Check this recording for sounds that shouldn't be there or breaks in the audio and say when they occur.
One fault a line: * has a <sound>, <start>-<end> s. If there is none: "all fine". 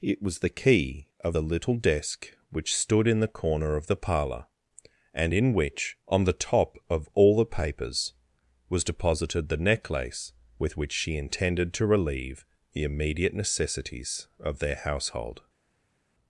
all fine